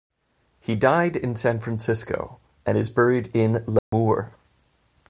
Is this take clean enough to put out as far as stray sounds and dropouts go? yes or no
no